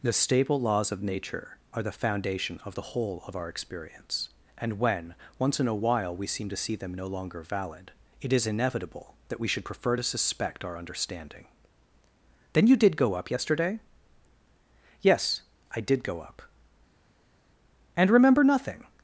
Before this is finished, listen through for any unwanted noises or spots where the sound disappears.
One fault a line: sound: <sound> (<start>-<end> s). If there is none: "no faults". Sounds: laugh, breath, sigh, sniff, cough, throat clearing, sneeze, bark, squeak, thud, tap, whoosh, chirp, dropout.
no faults